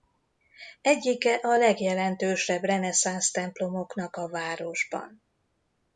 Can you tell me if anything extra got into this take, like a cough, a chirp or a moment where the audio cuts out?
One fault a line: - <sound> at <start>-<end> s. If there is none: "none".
none